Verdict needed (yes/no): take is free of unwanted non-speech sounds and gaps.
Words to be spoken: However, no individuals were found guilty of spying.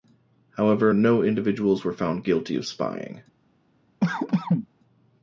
no